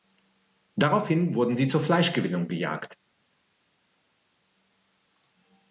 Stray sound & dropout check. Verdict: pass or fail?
pass